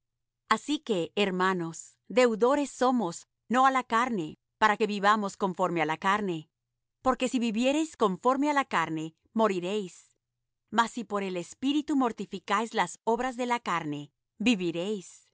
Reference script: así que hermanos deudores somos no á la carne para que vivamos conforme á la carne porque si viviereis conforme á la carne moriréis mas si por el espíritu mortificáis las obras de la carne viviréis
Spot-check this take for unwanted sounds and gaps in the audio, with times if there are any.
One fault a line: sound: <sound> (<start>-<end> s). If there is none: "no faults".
no faults